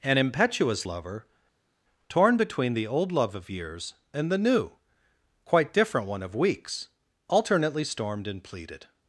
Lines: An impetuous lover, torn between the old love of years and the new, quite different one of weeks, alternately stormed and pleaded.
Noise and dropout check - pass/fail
pass